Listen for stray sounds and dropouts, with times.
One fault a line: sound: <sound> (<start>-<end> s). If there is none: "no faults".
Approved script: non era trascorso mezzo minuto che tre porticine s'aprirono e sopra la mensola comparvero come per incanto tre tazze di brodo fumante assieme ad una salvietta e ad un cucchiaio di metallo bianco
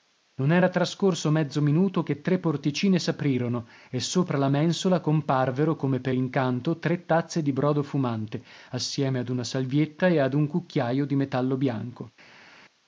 no faults